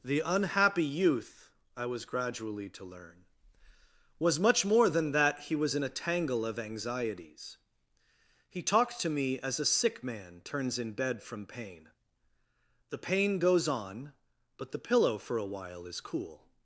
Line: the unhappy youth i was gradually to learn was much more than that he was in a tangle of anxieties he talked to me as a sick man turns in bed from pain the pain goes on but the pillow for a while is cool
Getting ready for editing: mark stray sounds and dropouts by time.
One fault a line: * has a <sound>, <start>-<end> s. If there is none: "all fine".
all fine